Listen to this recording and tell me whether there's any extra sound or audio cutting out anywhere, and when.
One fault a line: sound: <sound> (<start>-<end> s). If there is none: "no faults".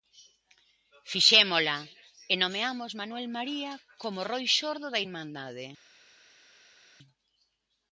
no faults